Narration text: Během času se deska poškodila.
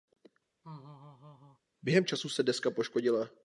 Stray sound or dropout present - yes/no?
yes